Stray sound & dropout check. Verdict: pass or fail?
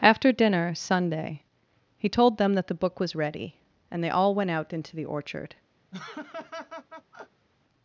fail